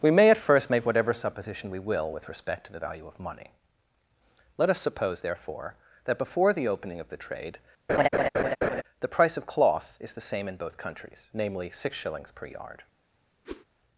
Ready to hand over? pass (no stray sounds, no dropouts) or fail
fail